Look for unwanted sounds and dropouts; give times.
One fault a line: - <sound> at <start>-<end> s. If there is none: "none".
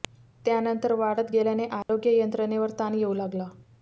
- dropout at 1.8-1.9 s